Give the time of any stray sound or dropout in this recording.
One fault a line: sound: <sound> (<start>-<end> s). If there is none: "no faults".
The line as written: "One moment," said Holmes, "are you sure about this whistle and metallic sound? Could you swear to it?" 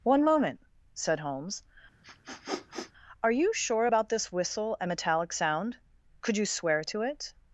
sound: sniff (2.0-2.9 s)